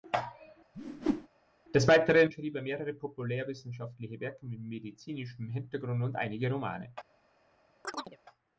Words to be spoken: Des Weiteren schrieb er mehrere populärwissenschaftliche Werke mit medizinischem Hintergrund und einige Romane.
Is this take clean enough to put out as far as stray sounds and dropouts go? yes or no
no